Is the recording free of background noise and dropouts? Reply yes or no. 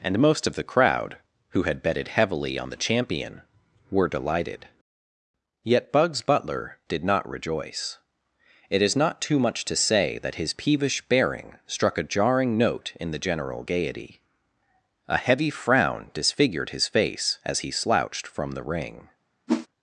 no